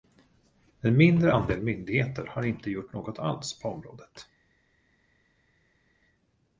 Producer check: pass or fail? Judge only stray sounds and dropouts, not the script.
pass